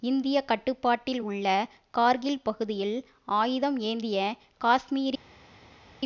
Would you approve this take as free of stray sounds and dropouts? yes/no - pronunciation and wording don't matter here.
yes